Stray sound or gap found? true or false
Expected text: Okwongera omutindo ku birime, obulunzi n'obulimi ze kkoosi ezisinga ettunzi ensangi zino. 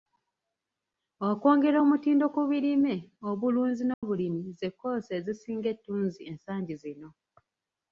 true